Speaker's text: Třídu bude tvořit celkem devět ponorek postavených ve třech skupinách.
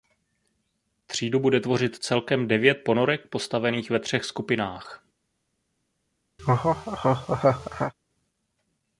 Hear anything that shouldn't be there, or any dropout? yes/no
yes